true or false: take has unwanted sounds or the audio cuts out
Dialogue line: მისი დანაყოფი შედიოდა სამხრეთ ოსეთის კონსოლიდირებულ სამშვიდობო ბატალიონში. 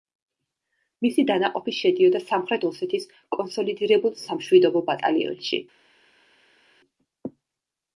false